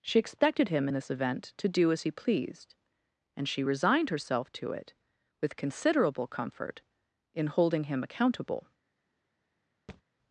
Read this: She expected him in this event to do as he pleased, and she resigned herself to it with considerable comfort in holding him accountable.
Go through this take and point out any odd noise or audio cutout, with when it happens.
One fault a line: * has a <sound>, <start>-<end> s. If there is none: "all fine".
* has a thud, 9.9-10.0 s